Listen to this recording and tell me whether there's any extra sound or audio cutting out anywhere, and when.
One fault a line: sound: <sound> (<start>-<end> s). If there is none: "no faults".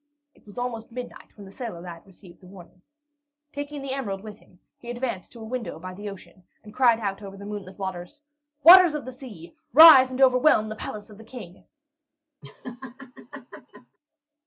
sound: laugh (12.4-14.0 s)